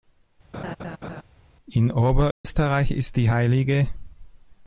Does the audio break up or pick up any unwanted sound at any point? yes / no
yes